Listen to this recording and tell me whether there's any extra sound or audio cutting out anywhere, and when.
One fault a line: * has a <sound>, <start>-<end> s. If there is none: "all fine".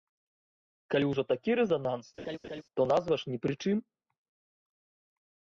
* has a laugh, 2.2-2.6 s